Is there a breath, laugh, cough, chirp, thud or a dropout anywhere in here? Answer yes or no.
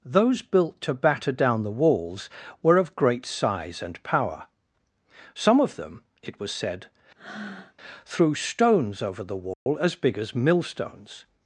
yes